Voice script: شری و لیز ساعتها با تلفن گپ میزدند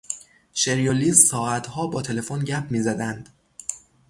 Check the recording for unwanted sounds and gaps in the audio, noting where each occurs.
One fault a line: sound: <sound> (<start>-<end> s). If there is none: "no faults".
no faults